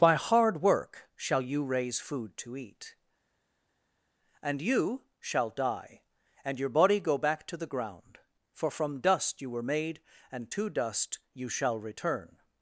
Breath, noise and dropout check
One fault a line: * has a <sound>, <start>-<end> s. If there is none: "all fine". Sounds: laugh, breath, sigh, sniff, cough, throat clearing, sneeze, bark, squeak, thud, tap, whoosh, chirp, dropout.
all fine